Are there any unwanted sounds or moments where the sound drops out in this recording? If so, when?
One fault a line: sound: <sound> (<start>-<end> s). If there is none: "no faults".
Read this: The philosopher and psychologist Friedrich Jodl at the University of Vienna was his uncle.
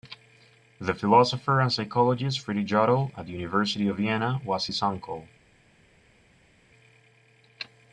no faults